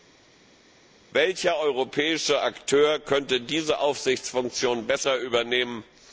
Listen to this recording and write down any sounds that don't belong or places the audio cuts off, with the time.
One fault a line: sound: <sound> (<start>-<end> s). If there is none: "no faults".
no faults